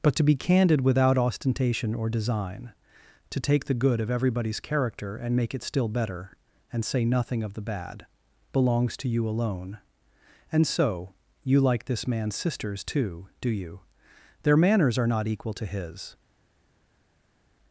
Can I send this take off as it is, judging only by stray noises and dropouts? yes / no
yes